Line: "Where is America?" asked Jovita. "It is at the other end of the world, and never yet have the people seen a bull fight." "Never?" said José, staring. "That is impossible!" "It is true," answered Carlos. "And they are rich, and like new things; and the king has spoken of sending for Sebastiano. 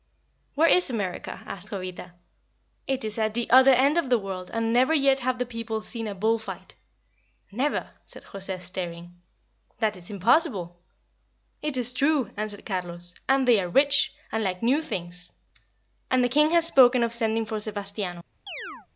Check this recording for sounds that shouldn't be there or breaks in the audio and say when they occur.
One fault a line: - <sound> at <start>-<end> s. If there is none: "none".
- chirp at 18.5-18.9 s